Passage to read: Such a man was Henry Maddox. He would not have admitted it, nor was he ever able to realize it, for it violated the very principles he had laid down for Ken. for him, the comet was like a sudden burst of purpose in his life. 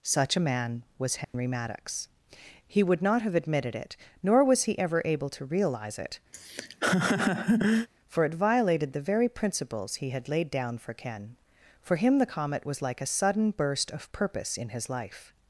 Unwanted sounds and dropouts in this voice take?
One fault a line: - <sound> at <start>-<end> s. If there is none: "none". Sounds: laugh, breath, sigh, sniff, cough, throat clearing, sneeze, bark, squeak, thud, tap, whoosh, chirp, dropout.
- dropout at 1.2-1.3 s
- laugh at 6.3-7.9 s